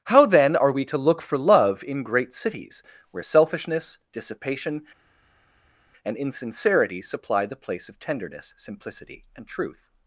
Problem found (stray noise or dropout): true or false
false